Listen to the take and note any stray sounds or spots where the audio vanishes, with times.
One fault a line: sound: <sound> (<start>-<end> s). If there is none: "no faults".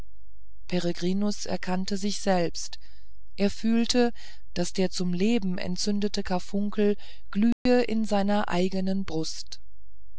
sound: dropout (7.5-7.7 s)